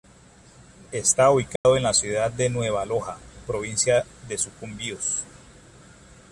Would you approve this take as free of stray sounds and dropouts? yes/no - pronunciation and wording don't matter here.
no